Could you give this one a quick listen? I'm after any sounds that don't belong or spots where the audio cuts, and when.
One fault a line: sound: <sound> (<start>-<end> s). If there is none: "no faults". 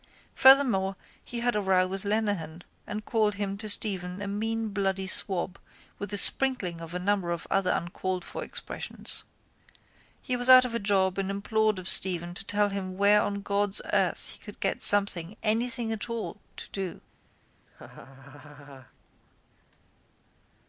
sound: laugh (17.7-18.9 s)